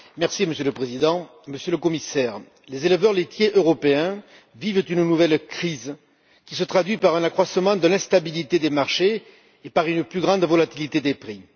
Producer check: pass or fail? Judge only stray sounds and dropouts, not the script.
pass